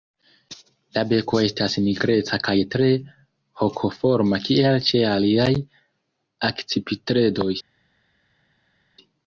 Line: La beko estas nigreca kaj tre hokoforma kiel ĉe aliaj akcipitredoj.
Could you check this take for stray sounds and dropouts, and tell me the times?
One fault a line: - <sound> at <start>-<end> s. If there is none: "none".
none